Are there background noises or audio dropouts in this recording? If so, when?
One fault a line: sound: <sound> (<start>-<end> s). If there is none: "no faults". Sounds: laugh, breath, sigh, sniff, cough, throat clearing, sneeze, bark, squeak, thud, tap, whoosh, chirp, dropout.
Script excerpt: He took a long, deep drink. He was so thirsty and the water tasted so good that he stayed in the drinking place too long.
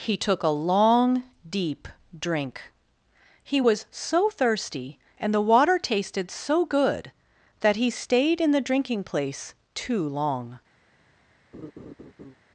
sound: laugh (11.5-12.3 s)